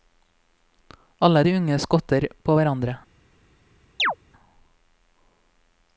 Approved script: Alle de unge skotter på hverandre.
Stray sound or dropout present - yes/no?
yes